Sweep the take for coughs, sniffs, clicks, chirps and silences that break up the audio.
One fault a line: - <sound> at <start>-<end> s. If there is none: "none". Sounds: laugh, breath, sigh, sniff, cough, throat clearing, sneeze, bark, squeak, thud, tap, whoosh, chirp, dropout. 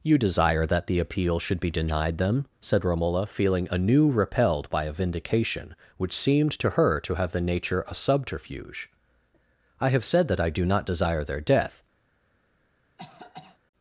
- cough at 13.0-13.6 s